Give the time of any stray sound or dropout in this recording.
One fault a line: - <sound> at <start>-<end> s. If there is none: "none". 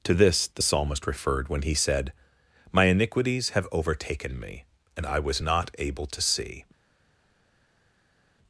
none